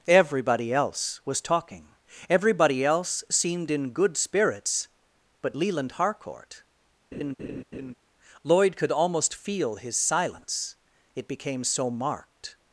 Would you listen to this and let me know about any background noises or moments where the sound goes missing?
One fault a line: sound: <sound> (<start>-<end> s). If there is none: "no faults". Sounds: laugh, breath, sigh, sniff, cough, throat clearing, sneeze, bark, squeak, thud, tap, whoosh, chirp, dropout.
sound: laugh (7.1-7.9 s)